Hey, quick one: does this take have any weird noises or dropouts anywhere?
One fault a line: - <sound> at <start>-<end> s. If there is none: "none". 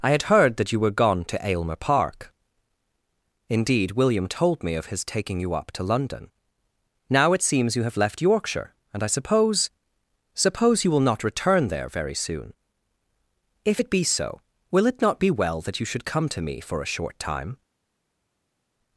none